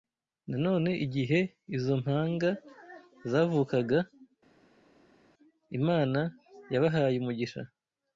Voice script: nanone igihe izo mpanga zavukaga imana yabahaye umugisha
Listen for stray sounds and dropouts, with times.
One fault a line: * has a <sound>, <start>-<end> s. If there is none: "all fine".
all fine